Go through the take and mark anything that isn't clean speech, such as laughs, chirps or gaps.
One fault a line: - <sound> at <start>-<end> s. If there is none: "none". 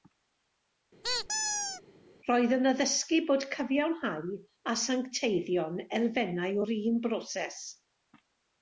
- squeak at 1.0-1.8 s